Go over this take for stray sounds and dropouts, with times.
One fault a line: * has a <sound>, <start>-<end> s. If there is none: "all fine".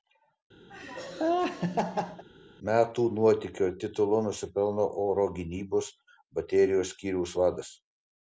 * has a laugh, 0.7-2.2 s